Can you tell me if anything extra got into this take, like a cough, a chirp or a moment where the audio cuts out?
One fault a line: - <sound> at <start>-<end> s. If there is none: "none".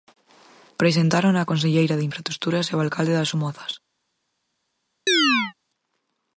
- chirp at 5.1-5.5 s